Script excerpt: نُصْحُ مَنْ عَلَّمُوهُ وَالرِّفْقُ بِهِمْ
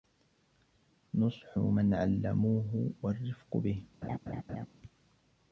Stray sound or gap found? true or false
true